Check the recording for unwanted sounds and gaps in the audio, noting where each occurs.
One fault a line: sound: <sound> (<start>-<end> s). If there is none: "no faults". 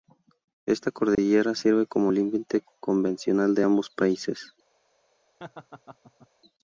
sound: dropout (1.1-1.2 s)
sound: laugh (5.4-6.3 s)